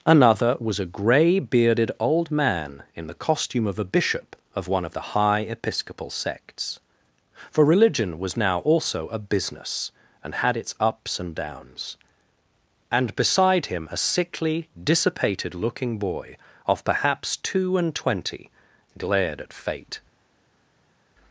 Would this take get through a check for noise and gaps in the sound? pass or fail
pass